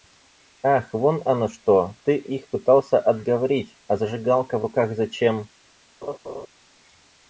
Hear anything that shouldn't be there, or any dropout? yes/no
yes